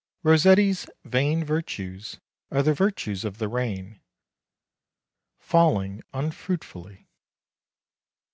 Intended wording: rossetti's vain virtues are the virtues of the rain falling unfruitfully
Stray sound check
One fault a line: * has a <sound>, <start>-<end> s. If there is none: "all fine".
all fine